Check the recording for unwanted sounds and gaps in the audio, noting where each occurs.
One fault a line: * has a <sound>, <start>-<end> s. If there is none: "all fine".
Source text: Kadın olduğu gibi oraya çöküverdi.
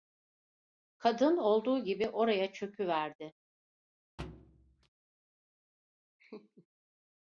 * has a thud, 4.2-4.9 s
* has a laugh, 6.2-6.7 s